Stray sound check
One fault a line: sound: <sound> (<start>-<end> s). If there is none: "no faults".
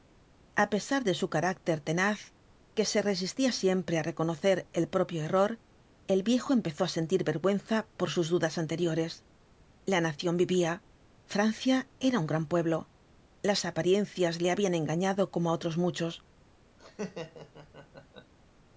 sound: laugh (16.8-18.3 s)